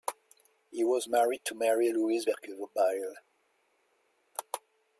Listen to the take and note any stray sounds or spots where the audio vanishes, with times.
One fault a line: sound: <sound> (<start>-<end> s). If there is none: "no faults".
no faults